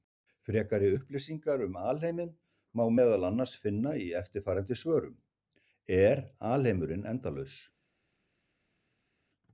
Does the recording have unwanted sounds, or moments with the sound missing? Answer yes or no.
no